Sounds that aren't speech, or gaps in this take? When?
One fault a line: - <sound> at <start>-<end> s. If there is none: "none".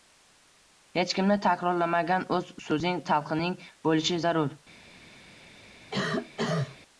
- cough at 5.9-6.8 s